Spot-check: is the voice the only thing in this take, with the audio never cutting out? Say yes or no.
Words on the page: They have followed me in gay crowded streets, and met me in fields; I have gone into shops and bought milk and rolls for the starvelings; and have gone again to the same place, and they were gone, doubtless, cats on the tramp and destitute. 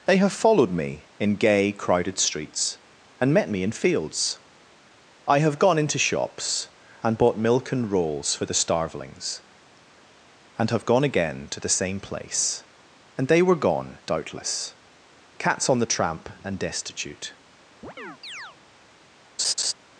no